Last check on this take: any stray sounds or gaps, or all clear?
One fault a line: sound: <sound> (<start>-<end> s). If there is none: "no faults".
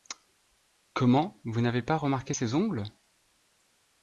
no faults